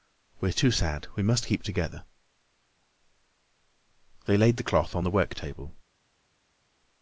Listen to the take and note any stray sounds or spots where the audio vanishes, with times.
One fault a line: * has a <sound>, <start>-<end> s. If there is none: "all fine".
all fine